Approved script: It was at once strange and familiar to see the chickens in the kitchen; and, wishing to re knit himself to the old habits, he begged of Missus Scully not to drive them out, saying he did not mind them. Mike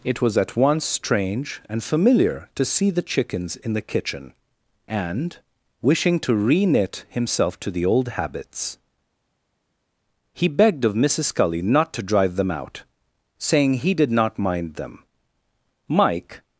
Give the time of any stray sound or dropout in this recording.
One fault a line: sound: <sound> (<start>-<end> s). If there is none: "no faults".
no faults